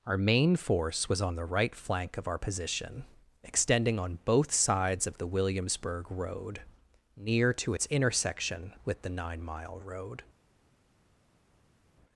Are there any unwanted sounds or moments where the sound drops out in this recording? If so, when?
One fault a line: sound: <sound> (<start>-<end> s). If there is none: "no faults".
no faults